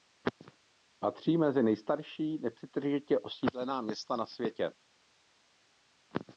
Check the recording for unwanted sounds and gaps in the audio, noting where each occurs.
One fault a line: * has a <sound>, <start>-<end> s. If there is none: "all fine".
all fine